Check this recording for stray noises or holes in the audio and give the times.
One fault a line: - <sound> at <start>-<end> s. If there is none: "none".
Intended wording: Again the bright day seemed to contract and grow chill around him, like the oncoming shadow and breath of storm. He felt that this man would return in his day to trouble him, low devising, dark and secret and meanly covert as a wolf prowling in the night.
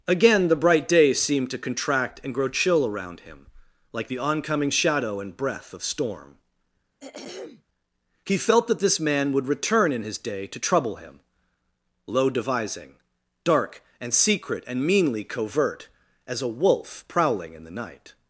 - throat clearing at 7.0-7.6 s